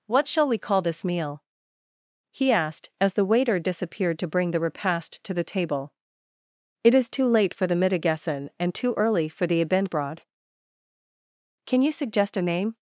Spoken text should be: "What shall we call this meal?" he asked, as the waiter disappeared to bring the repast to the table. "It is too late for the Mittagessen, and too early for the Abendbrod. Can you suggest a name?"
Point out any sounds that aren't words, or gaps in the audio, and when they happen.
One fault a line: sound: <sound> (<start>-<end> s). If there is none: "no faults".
no faults